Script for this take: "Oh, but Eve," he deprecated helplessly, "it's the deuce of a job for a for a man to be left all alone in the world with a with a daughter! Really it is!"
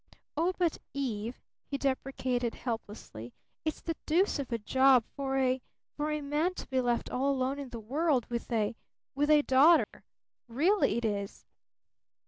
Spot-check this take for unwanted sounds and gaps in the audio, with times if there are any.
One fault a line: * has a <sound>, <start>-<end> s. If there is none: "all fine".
* has a dropout, 9.8-9.9 s